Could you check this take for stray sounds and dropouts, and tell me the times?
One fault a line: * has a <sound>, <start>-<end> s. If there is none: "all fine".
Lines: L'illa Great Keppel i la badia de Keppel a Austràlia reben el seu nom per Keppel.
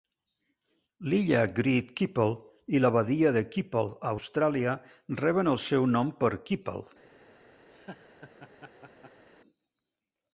* has a laugh, 7.7-9.2 s